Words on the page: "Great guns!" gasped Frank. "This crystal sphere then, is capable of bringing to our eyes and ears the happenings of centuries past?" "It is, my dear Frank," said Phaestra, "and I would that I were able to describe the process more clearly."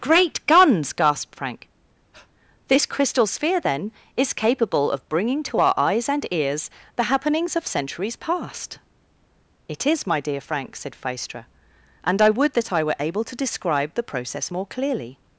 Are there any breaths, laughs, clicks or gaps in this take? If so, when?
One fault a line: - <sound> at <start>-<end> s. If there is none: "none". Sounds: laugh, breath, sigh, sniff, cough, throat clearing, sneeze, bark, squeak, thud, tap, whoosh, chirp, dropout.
- breath at 2.1-2.3 s